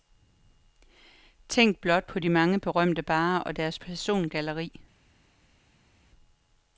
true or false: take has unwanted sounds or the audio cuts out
false